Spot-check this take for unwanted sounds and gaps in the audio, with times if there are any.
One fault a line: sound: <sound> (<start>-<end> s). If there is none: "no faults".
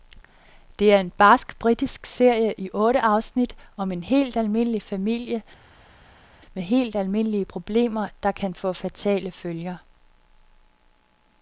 no faults